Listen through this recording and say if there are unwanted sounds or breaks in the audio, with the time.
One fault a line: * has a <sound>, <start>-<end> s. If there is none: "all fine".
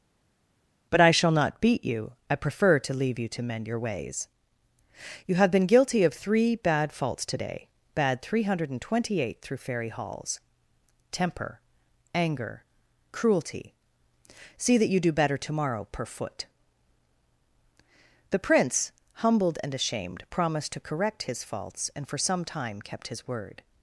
all fine